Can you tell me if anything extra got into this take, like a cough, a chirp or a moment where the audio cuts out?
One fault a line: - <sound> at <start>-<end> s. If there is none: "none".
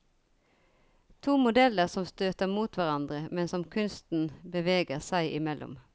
none